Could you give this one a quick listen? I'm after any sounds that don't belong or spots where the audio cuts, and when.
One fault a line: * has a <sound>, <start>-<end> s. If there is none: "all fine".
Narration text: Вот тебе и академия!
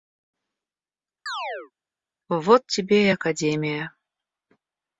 * has a chirp, 1.3-1.7 s